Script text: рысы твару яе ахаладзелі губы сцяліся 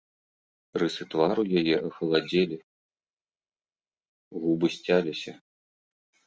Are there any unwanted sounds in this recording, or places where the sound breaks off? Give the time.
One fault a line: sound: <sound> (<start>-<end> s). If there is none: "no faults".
no faults